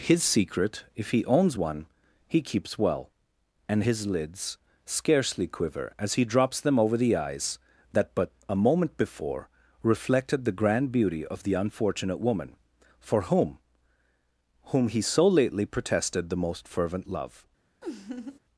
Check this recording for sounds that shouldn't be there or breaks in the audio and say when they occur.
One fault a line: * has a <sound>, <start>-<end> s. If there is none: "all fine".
* has a laugh, 17.8-18.4 s